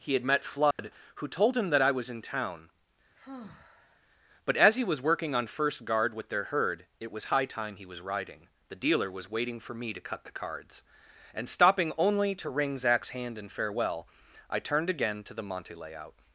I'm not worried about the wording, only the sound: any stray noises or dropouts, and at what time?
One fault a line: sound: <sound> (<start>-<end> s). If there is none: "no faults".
sound: dropout (0.7-0.8 s)
sound: sigh (3.2-4.0 s)